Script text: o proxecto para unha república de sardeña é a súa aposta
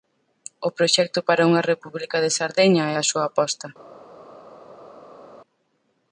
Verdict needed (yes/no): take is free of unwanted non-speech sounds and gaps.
yes